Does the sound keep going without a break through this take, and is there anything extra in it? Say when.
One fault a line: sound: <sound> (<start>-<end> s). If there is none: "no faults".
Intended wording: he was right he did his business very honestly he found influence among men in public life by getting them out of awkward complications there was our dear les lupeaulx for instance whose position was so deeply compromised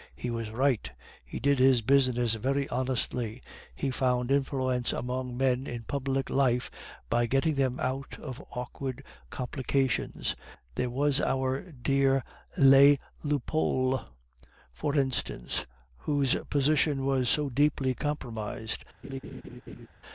sound: laugh (19.0-19.9 s)